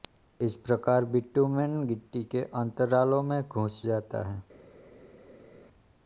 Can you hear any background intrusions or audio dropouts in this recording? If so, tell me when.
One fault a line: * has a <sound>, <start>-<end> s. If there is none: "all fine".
all fine